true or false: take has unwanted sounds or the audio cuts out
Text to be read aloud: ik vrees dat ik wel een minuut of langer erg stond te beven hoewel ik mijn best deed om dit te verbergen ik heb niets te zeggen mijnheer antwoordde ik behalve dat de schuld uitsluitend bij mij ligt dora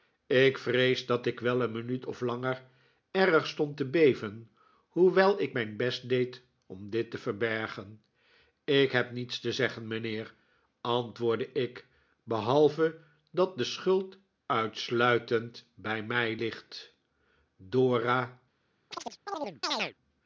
true